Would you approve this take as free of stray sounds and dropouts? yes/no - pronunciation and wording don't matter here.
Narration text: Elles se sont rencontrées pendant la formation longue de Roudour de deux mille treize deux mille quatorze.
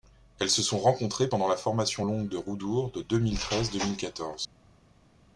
yes